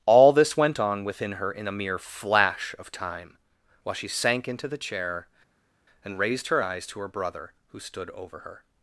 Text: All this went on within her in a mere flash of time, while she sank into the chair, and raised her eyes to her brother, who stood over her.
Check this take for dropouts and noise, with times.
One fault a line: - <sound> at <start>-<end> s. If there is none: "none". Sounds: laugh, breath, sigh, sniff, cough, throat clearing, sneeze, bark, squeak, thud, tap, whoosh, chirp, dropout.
none